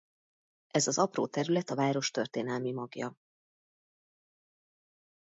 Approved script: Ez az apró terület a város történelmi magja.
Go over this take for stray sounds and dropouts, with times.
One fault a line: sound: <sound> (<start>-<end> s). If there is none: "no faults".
no faults